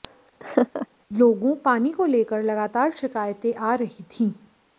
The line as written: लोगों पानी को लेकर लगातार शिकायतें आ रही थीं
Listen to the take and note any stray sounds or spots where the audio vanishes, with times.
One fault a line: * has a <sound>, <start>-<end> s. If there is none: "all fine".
* has a laugh, 0.4-0.9 s